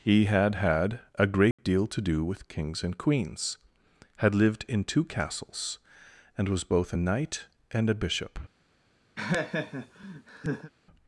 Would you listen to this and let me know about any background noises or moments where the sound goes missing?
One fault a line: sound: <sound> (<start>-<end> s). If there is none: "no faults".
sound: dropout (1.5-1.6 s)
sound: laugh (9.2-10.7 s)